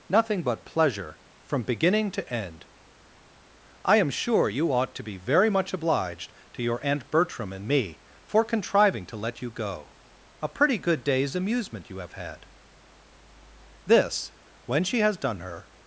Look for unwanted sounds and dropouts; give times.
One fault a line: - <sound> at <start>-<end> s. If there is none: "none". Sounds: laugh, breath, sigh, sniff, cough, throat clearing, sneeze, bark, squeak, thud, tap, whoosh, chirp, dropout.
none